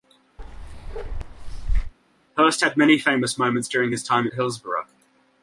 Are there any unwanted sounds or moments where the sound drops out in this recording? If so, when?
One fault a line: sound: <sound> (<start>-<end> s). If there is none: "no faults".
sound: bark (0.4-1.9 s)